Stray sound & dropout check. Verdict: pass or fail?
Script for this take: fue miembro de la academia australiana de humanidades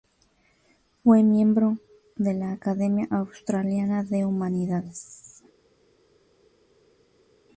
pass